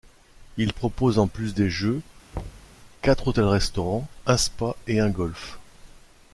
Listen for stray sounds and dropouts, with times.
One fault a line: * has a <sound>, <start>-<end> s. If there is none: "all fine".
* has a thud, 2.3-2.8 s